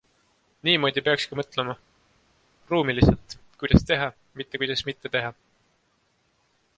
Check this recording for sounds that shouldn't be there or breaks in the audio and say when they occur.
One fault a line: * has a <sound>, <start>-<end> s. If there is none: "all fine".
all fine